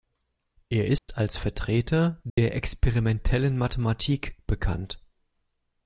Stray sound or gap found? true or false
true